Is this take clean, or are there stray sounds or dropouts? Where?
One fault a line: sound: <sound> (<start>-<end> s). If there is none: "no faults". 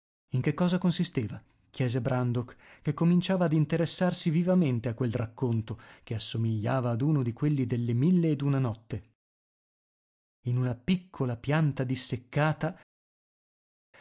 no faults